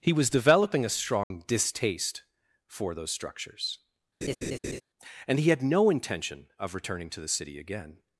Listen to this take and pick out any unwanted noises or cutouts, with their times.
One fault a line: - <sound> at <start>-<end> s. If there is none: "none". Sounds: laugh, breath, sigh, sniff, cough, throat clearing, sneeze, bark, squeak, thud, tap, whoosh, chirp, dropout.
- dropout at 1.2-1.3 s
- laugh at 4.2-4.8 s